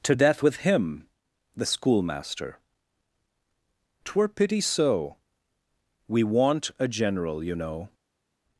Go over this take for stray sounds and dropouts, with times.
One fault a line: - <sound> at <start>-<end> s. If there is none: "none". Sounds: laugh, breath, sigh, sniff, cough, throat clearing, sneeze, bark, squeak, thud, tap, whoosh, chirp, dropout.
none